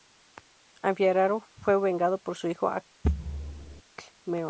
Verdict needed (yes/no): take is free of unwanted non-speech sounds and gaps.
no